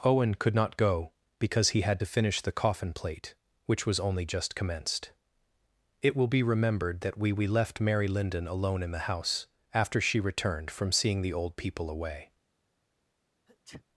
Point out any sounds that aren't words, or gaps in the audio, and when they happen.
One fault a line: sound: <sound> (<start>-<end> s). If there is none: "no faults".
sound: sneeze (13.5-13.9 s)